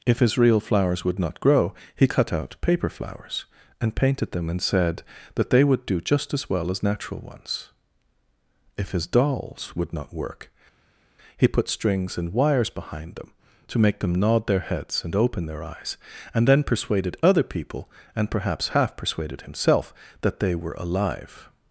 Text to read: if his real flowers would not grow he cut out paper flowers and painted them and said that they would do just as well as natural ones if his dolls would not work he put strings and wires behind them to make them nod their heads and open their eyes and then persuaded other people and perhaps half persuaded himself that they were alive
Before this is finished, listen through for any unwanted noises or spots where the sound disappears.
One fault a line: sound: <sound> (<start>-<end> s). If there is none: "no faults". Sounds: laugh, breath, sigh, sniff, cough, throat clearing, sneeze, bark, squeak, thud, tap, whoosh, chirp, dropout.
no faults